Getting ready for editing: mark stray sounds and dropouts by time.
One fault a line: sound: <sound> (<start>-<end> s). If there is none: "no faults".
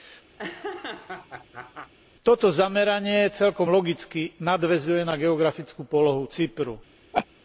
sound: laugh (0.4-1.9 s)
sound: laugh (7.1-7.3 s)